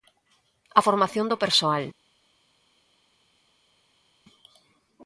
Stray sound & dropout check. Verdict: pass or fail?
pass